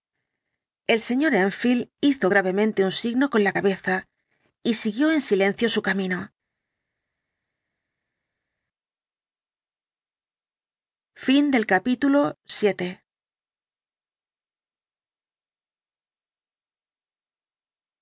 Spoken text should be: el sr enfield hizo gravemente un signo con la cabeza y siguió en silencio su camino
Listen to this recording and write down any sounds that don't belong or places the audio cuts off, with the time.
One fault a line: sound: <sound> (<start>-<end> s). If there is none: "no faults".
no faults